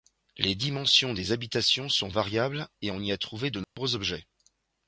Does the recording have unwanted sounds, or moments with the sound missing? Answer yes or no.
yes